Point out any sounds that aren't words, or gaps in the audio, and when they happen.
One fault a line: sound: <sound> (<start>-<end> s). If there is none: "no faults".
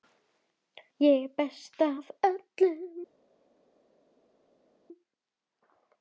no faults